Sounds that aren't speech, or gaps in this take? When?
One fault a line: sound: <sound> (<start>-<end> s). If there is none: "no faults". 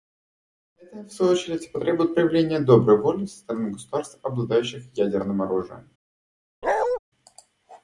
sound: bark (6.6-7.0 s)